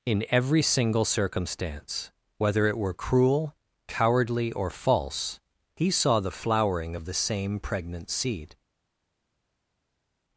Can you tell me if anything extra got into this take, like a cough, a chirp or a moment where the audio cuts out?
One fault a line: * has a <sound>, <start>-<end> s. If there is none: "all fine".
all fine